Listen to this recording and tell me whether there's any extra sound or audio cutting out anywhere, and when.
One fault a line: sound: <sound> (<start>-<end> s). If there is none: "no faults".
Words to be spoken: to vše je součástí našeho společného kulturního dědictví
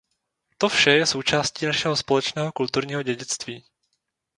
no faults